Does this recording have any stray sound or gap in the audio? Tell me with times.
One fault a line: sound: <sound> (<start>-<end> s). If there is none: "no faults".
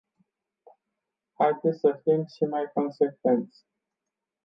no faults